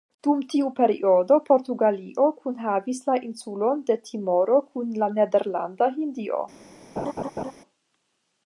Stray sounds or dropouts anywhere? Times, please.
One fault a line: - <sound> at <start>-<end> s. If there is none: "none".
- laugh at 7.0-7.5 s